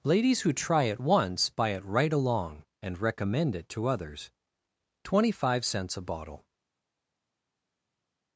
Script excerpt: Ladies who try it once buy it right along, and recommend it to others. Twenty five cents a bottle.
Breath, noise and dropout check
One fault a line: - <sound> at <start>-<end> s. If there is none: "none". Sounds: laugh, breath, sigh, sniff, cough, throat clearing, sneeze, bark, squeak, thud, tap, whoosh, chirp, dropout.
none